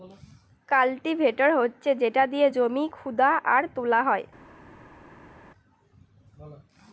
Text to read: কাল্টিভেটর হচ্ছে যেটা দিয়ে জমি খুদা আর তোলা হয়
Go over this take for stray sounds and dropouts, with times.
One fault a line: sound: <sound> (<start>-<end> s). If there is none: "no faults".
no faults